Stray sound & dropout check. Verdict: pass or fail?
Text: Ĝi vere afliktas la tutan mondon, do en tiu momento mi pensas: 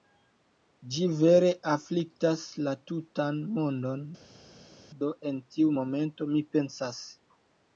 pass